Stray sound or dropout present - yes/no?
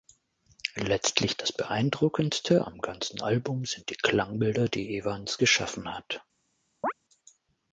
yes